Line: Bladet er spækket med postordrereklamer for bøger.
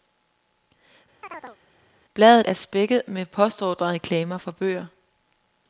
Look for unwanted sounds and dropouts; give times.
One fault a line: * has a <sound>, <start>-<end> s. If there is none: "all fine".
* has a chirp, 1.2-1.6 s